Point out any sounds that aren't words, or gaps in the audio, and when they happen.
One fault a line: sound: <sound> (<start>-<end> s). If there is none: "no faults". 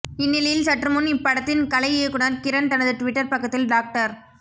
no faults